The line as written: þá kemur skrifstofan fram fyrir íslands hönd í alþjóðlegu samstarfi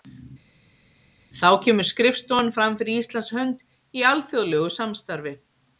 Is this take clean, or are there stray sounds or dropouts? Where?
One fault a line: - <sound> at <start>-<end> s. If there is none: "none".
none